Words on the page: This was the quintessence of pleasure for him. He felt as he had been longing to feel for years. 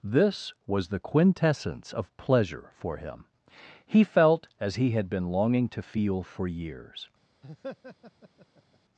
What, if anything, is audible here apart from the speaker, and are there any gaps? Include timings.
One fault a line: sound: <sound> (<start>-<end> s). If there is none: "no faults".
sound: laugh (7.4-8.8 s)